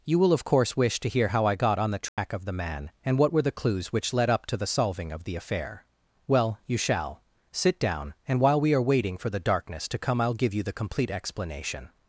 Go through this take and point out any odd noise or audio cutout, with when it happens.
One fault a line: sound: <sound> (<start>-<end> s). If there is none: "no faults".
sound: dropout (2.1-2.2 s)